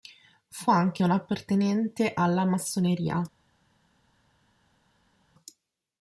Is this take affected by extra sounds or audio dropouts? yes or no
no